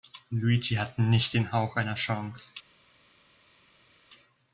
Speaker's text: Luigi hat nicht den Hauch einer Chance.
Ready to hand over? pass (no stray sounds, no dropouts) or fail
pass